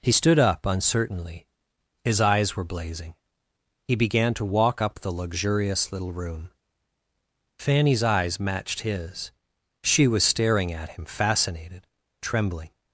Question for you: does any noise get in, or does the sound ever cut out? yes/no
no